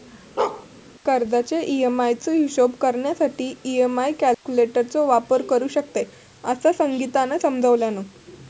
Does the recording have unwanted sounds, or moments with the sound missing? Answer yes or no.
yes